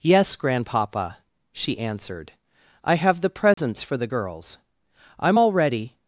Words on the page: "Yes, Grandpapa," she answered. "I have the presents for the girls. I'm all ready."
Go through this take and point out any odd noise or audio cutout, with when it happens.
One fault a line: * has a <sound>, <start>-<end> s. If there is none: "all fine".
* has a dropout, 3.5-3.6 s